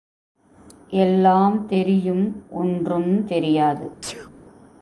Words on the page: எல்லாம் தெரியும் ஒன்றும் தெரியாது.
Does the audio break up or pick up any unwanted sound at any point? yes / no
yes